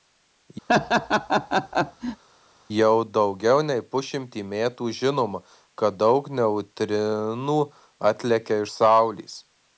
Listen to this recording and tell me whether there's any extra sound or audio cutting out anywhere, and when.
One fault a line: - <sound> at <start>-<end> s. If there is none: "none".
- laugh at 0.7-2.2 s